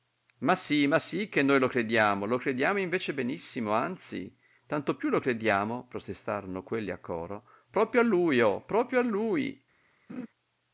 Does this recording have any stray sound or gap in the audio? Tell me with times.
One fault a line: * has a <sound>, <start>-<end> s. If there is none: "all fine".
* has a laugh, 10.1-10.3 s